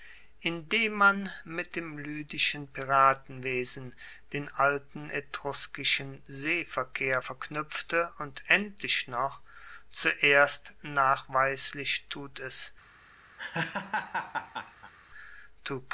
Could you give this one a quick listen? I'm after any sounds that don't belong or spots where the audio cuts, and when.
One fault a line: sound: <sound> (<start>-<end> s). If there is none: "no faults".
sound: laugh (13.4-14.9 s)